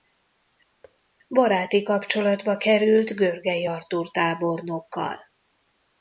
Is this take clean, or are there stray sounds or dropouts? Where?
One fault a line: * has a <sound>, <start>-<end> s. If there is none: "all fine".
* has a thud, 0.8-1.0 s